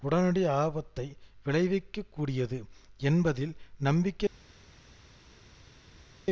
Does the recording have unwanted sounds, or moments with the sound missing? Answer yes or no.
no